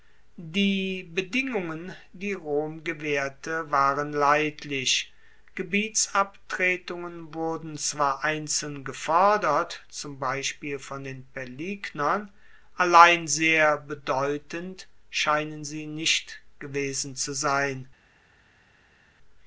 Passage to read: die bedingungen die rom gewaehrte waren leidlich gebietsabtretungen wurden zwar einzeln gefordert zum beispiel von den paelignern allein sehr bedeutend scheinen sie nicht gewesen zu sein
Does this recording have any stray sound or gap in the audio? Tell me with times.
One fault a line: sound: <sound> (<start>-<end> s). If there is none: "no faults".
no faults